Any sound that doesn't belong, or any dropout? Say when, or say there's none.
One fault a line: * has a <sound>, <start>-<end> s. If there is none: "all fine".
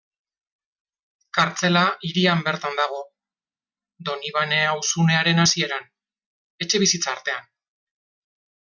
all fine